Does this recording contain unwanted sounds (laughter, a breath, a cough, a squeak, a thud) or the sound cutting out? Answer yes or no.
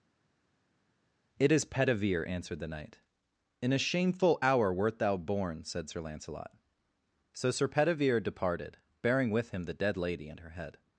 no